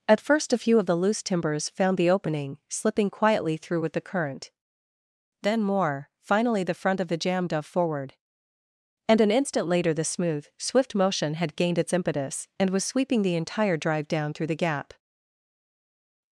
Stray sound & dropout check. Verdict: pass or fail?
pass